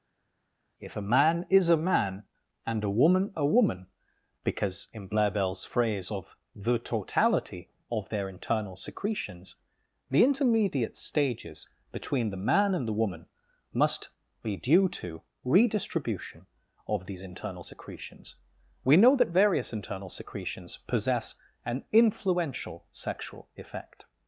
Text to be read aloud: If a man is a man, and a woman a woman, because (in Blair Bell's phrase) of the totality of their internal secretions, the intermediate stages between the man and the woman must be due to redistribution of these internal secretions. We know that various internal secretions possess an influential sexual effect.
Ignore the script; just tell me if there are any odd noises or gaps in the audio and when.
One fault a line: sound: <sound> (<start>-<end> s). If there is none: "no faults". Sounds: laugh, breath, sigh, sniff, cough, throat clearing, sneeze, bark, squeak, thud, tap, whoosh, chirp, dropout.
no faults